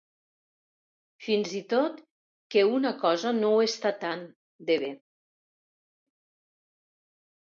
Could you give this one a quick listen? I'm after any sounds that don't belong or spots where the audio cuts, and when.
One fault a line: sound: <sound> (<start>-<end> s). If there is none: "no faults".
no faults